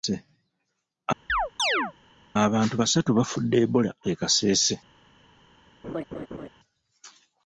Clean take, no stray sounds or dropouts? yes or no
no